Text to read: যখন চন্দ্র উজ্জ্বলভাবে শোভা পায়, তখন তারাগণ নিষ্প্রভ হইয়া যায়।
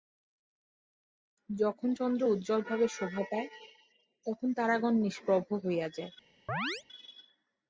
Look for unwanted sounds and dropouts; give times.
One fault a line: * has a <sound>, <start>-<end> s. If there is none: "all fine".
* has a chirp, 6.5-6.8 s